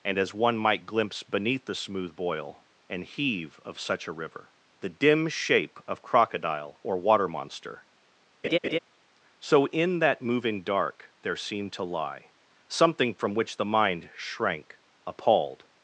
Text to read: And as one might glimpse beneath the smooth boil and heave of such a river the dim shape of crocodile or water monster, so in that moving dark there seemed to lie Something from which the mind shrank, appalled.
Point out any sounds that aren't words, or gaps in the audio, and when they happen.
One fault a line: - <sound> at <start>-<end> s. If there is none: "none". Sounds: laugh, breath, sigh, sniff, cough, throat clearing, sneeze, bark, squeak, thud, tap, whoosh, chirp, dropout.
- laugh at 8.4-8.8 s